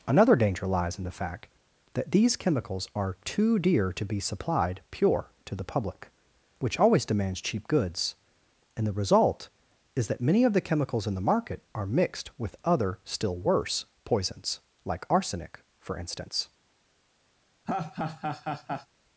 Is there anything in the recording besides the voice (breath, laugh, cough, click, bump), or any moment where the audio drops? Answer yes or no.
yes